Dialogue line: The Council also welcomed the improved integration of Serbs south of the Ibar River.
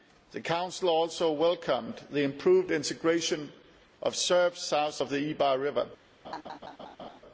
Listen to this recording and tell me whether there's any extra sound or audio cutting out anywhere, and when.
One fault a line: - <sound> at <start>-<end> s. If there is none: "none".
- laugh at 6.2-7.2 s